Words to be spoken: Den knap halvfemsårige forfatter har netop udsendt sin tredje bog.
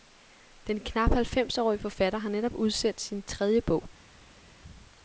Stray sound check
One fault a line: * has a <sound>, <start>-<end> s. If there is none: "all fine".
all fine